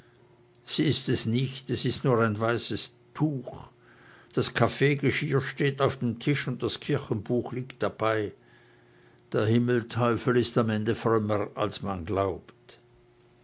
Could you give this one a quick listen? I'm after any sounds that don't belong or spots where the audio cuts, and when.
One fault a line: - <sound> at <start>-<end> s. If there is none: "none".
none